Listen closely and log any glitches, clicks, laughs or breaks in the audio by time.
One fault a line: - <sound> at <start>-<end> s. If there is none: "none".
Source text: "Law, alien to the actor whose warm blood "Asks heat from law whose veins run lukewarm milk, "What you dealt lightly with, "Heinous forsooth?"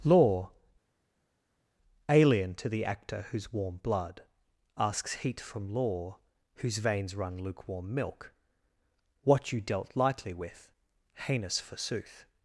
none